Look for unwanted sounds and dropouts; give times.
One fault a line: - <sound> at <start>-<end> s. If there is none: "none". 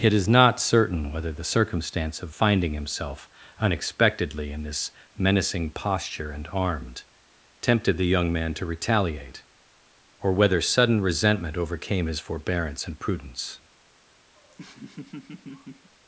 - laugh at 14.4-15.9 s